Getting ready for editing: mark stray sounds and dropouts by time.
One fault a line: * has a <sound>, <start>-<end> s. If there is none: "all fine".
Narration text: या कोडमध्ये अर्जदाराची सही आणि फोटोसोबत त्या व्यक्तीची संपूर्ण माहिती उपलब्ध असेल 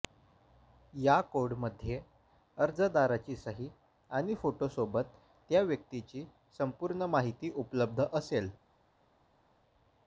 all fine